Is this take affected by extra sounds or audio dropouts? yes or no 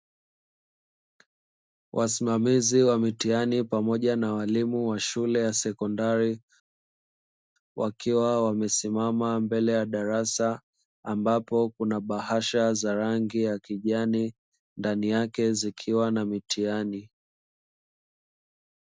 no